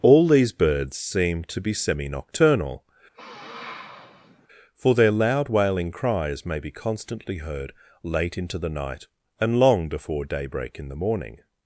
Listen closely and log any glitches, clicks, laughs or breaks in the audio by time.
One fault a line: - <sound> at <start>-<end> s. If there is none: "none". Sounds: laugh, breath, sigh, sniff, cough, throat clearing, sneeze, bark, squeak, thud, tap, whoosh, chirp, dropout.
- sniff at 3.1-4.5 s